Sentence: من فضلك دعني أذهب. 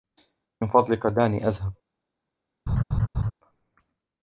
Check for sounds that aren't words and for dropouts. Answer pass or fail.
fail